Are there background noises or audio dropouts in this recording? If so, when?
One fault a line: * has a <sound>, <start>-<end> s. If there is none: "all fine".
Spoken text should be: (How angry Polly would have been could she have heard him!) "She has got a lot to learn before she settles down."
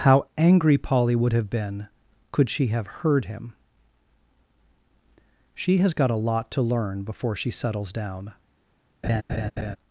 * has a laugh, 9.0-9.8 s